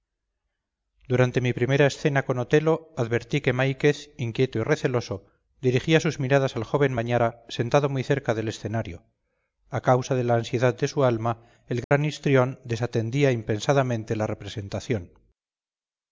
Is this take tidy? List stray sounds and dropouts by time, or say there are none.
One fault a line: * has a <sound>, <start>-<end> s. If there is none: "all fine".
* has a dropout, 11.8-11.9 s